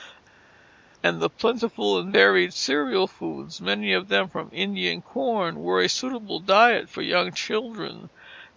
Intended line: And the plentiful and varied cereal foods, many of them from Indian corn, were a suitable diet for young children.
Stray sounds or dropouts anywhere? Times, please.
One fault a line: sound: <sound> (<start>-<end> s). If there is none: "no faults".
no faults